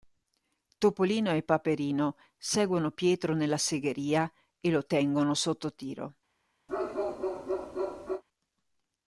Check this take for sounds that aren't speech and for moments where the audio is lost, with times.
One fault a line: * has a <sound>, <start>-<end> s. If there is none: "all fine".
* has a bark, 6.7-8.2 s